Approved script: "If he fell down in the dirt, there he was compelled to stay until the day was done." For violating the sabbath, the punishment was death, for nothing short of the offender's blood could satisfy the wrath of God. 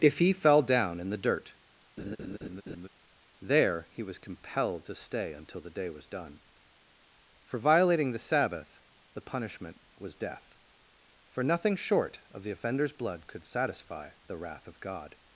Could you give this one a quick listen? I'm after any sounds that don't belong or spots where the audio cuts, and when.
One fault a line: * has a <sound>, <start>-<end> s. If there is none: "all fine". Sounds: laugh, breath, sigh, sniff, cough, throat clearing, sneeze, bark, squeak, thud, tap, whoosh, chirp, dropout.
* has a laugh, 2.0-2.9 s